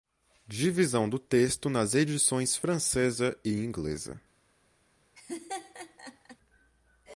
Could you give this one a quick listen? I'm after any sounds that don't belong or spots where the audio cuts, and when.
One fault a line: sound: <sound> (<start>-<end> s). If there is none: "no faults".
sound: laugh (5.2-6.4 s)